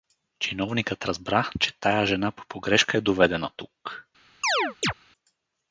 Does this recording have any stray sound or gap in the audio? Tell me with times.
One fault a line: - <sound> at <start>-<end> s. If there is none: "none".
- chirp at 4.4-4.9 s